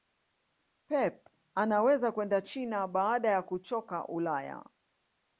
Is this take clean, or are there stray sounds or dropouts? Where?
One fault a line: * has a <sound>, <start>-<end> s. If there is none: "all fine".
all fine